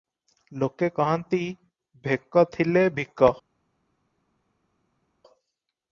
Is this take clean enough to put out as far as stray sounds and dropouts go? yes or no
yes